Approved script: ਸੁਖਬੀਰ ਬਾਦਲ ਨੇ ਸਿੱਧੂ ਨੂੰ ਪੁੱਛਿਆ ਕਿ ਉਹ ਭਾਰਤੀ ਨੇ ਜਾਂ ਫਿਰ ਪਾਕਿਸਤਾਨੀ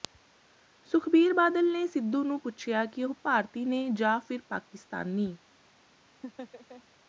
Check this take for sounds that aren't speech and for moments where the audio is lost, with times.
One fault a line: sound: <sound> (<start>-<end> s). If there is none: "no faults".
sound: laugh (6.2-6.8 s)